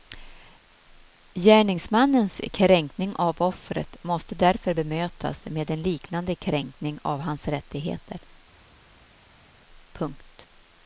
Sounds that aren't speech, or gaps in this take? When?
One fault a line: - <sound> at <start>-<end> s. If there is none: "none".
none